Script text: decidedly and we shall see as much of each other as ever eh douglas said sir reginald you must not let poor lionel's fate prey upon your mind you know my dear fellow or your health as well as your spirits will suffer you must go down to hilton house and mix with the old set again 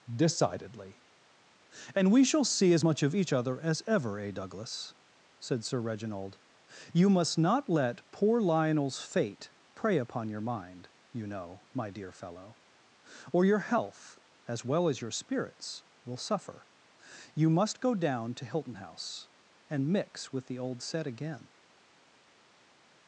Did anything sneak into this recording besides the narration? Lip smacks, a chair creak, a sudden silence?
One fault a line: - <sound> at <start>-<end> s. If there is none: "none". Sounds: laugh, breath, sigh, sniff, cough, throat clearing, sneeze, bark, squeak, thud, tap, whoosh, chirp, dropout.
none